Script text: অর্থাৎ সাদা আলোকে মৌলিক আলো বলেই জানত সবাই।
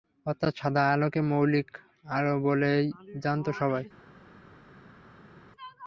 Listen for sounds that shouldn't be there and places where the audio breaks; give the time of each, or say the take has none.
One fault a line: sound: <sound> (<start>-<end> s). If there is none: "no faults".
no faults